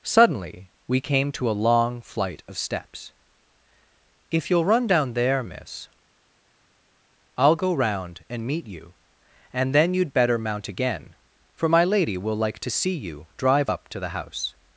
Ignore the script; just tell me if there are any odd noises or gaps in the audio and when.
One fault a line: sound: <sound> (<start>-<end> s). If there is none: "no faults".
no faults